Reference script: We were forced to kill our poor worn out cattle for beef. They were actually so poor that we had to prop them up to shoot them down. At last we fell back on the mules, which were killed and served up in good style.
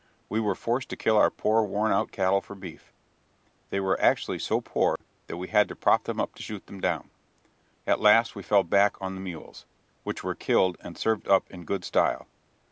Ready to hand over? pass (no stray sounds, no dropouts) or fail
fail